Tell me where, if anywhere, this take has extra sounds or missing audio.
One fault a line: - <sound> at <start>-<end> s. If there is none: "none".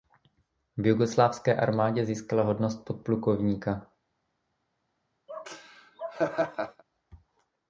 - laugh at 5.3-6.8 s